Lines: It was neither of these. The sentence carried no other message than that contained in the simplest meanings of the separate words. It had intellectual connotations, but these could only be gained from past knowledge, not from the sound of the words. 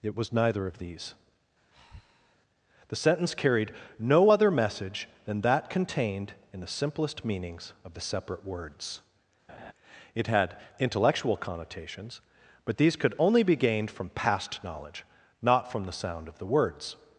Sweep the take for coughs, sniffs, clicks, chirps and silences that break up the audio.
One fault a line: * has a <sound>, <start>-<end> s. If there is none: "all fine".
* has a breath, 1.7-2.4 s
* has a laugh, 9.5-9.7 s